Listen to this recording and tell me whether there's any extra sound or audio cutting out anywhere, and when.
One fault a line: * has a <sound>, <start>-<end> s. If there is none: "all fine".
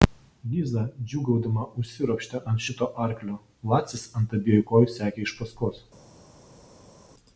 all fine